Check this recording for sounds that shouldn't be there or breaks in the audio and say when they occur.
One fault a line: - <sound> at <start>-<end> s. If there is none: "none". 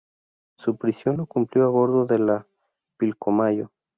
none